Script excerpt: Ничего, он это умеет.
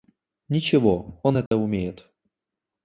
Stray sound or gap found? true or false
true